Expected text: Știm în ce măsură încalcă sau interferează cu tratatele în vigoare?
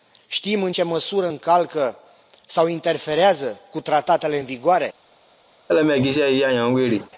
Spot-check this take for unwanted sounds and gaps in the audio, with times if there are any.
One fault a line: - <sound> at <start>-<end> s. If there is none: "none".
- laugh at 5.7-7.1 s